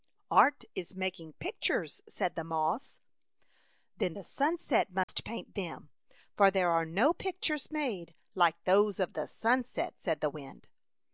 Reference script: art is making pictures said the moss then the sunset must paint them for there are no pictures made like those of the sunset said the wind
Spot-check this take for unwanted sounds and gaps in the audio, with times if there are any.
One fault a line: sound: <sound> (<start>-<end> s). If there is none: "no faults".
sound: dropout (5.0-5.1 s)